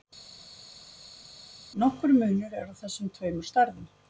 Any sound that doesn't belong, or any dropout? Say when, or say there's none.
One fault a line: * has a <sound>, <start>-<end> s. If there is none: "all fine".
all fine